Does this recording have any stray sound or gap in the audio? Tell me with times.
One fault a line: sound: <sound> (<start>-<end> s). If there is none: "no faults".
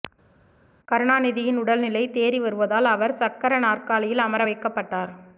no faults